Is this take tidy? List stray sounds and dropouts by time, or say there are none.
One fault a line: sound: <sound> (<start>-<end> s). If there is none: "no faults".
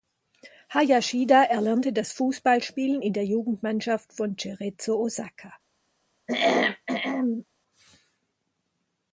sound: throat clearing (6.3-7.5 s)